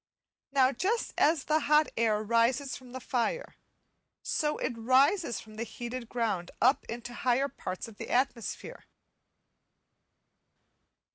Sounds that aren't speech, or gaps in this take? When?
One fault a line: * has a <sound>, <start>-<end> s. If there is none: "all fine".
all fine